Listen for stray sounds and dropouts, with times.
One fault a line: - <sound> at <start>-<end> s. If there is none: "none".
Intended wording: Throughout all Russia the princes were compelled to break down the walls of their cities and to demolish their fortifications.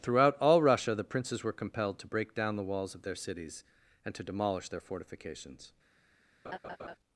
- laugh at 6.4-7.0 s